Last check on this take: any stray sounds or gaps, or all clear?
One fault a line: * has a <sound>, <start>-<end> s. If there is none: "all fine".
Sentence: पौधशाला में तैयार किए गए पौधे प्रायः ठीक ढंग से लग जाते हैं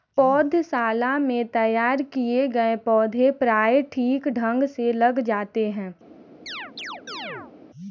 * has a chirp, 6.5-7.5 s